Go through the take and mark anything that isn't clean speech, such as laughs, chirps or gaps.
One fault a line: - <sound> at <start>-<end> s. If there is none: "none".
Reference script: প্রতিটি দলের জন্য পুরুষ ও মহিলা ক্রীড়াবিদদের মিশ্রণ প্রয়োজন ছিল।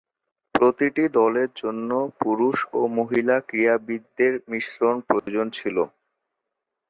- dropout at 5.2-5.3 s